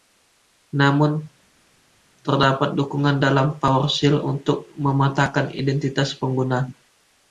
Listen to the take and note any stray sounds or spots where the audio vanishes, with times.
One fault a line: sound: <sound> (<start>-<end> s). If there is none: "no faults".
no faults